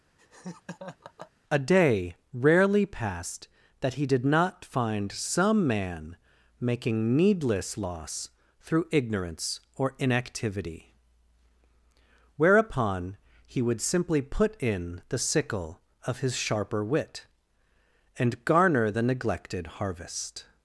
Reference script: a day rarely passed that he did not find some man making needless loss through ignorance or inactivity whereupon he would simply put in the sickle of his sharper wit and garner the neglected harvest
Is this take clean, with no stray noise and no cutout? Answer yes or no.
no